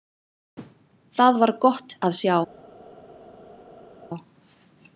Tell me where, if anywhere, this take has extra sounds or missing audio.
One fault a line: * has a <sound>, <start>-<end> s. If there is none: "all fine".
all fine